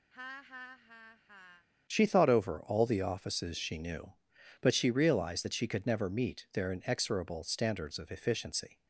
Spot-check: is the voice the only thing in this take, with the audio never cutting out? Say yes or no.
no